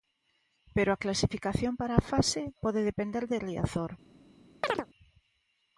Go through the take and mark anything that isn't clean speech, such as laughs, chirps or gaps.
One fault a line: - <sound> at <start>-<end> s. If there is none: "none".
- chirp at 4.6-4.9 s